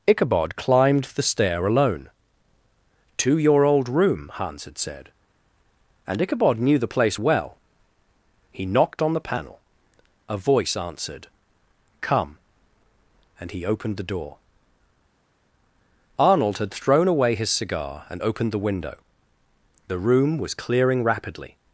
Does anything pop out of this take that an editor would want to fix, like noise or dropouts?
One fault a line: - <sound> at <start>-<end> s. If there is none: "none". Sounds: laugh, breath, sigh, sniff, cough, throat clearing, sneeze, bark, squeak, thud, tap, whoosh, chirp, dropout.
none